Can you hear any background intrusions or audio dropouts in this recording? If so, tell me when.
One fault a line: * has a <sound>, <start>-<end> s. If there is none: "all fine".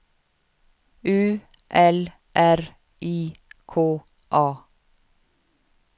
all fine